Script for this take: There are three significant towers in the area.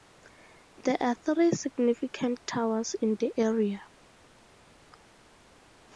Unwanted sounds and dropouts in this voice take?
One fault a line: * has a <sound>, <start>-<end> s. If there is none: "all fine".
all fine